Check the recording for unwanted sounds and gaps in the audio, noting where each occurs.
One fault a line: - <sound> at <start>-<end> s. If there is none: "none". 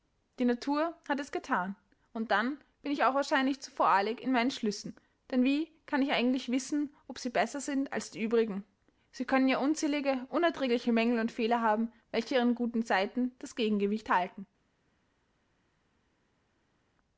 none